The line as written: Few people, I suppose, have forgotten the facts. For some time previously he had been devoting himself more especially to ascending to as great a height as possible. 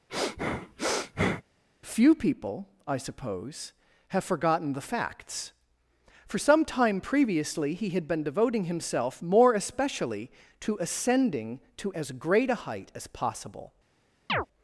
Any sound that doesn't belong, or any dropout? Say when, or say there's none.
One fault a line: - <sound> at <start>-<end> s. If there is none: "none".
- sniff at 0.1-1.4 s
- chirp at 14.3-14.5 s